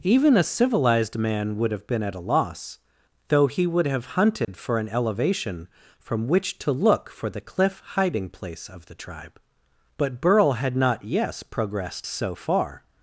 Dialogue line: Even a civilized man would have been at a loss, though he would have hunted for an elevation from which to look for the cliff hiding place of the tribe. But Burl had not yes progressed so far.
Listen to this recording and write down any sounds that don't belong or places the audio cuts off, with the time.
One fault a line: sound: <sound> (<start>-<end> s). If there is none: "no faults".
sound: dropout (4.4-4.5 s)